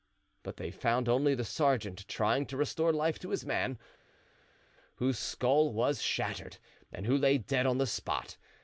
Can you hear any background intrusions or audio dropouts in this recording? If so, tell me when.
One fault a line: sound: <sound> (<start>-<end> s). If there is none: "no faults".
no faults